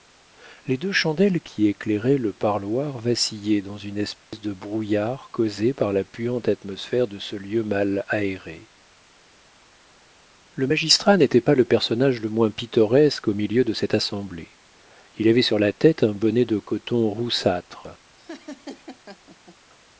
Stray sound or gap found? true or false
true